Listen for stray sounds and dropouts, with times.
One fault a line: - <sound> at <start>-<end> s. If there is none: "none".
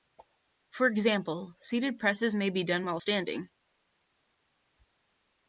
none